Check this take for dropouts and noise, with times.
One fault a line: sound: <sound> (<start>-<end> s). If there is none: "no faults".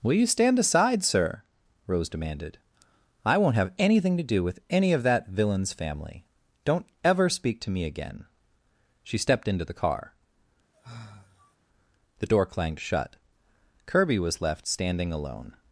sound: sigh (10.7-11.6 s)